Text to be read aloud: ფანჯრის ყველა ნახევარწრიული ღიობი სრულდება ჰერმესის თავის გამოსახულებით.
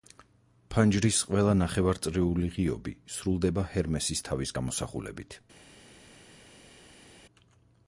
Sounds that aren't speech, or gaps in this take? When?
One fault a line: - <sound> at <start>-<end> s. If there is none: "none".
none